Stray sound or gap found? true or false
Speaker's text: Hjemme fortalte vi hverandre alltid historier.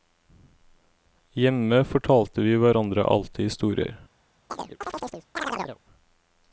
true